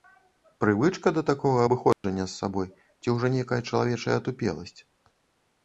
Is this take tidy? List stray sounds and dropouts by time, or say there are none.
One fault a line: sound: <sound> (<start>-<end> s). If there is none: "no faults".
sound: dropout (1.9-2.0 s)